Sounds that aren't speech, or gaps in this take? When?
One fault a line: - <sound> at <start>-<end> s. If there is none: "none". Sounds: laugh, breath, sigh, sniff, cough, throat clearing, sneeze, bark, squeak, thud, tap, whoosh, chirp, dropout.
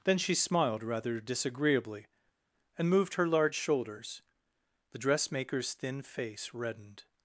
none